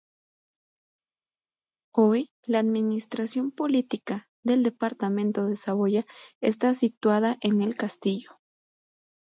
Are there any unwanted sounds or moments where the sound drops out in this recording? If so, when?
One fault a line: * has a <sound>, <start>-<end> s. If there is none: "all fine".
all fine